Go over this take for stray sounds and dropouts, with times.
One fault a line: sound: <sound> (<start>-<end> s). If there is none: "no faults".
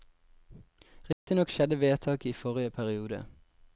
sound: dropout (1.1-1.3 s)